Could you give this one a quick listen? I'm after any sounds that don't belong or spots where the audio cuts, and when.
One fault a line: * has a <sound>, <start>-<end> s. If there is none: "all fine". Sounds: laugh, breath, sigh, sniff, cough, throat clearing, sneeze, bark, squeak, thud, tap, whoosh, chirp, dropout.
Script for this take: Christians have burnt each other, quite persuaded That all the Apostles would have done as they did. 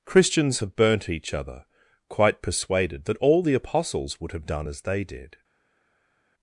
all fine